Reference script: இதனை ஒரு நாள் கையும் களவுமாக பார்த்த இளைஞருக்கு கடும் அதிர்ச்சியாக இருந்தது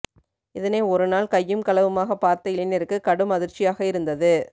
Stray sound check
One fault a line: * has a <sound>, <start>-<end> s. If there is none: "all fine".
all fine